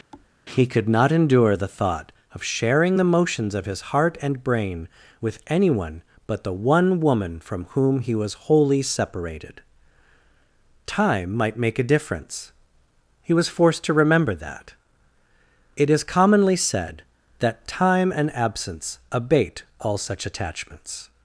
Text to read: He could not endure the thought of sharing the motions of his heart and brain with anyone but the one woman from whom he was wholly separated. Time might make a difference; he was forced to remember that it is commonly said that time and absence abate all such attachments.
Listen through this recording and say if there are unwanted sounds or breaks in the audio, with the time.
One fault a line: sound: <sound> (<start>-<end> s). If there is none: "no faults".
sound: thud (0.1-0.3 s)